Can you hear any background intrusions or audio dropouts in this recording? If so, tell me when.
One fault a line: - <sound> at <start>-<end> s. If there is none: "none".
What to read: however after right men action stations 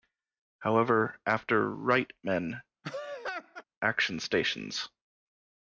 - laugh at 2.8-3.6 s